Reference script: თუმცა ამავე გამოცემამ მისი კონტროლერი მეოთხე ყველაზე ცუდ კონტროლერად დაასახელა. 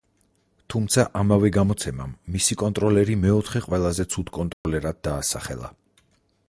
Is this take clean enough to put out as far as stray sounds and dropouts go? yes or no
no